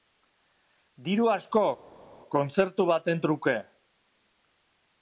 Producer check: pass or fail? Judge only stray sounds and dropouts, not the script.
pass